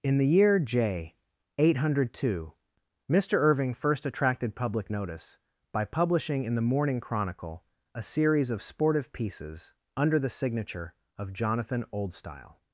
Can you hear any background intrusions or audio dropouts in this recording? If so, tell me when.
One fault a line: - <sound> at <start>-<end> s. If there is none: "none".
none